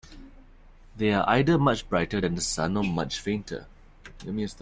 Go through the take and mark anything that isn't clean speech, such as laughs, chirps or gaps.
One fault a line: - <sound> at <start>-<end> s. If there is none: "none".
none